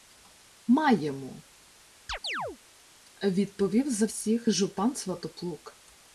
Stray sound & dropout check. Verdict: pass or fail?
fail